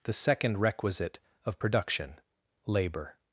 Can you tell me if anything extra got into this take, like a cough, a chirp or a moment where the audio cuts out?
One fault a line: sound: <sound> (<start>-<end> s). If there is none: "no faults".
no faults